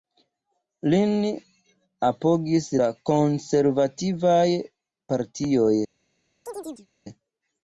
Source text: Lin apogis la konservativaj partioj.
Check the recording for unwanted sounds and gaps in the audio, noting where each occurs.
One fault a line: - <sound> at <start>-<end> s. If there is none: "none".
- chirp at 6.5-6.9 s